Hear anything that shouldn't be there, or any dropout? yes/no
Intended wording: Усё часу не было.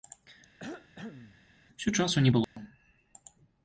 yes